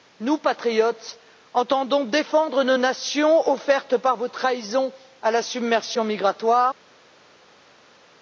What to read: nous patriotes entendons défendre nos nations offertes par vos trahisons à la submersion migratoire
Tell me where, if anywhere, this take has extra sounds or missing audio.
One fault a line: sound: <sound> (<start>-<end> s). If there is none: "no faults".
no faults